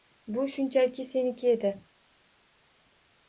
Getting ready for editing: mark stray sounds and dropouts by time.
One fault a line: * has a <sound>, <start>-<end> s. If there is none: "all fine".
all fine